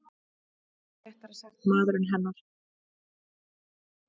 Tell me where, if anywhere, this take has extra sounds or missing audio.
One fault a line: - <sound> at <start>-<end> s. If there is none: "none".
none